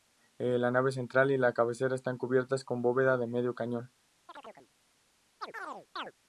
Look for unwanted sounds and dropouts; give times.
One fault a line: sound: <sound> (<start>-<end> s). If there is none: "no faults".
sound: chirp (4.3-4.7 s)
sound: chirp (5.4-6.1 s)